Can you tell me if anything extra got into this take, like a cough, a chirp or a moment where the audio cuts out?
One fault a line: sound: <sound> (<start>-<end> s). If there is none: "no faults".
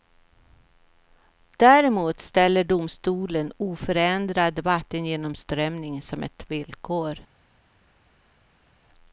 no faults